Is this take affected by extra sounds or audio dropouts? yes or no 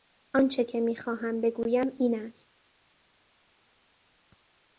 no